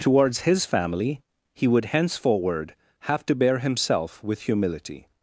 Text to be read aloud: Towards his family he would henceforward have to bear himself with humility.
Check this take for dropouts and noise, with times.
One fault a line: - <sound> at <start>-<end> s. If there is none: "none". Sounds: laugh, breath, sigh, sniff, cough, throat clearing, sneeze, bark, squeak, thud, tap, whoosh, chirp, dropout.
none